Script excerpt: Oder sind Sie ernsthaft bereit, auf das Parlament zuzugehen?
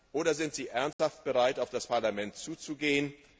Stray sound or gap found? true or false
true